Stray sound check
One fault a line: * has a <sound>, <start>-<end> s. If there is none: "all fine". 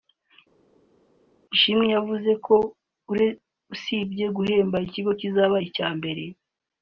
all fine